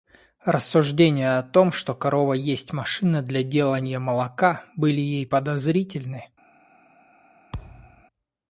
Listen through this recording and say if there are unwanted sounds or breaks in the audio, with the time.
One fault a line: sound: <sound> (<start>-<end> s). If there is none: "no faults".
sound: thud (7.5-8.0 s)